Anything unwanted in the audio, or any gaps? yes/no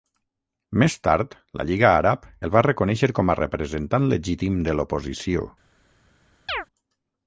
yes